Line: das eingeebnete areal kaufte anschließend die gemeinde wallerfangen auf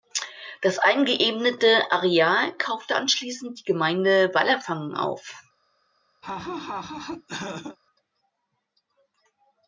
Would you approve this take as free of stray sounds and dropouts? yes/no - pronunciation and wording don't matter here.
no